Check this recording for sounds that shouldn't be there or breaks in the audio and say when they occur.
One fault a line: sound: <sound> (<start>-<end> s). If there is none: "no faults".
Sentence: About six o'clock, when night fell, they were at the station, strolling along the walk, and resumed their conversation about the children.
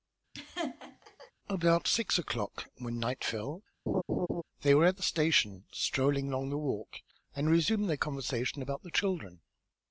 sound: laugh (0.3-1.3 s)
sound: laugh (3.9-4.4 s)